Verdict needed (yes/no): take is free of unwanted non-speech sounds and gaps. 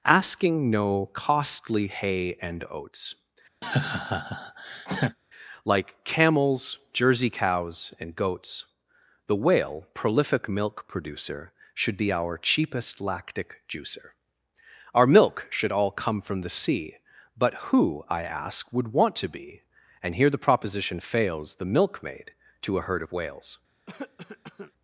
no